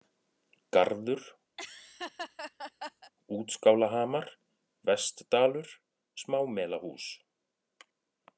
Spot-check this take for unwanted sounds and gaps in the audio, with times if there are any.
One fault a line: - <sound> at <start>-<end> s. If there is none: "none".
- laugh at 1.6-3.1 s